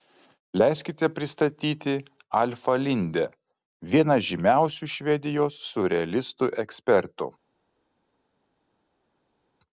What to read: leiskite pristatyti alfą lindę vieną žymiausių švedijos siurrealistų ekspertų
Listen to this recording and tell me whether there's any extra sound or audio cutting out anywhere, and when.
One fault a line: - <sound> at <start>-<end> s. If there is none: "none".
none